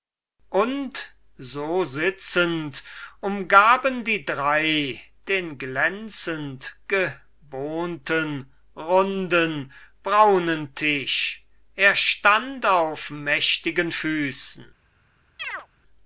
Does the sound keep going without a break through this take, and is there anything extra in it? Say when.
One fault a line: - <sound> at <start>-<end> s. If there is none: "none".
- chirp at 15.4-15.7 s